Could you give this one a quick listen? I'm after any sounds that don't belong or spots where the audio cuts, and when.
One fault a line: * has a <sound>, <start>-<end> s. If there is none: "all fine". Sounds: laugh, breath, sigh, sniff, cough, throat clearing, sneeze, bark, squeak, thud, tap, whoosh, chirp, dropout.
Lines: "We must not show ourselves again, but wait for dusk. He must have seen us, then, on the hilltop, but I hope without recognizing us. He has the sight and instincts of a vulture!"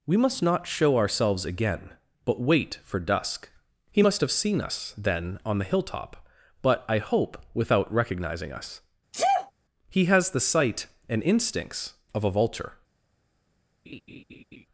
* has a sneeze, 9.1-9.5 s
* has a laugh, 13.9-14.7 s